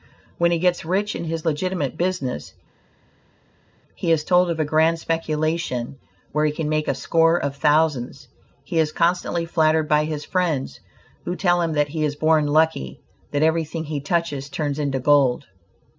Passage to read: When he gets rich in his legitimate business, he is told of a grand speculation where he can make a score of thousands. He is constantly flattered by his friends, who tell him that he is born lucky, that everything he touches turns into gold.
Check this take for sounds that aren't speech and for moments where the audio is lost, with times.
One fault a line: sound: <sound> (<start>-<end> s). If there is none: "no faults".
no faults